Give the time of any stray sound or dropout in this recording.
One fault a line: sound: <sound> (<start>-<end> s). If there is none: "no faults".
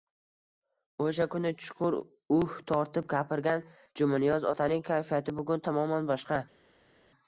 no faults